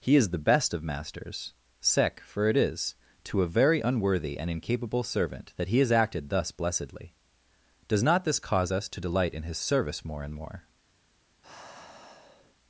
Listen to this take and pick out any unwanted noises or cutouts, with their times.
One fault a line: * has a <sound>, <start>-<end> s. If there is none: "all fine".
* has a sigh, 11.4-12.6 s